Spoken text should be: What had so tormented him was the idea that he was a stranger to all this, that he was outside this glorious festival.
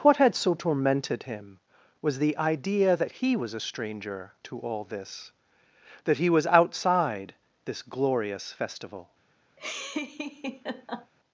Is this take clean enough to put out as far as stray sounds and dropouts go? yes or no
no